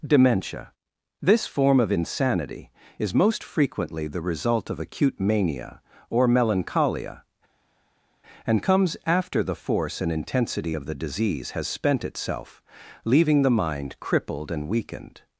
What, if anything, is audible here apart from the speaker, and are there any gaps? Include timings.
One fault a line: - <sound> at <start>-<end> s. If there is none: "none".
none